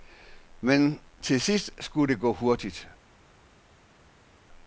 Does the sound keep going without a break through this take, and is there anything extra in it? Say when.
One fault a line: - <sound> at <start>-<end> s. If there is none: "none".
none